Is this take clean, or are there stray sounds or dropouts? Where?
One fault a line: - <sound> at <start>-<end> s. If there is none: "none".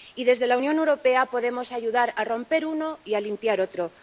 none